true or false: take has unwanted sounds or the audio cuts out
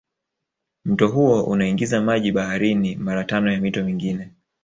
false